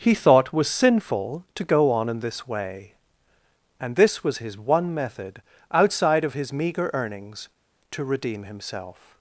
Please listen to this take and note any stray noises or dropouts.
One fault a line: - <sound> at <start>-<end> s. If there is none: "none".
none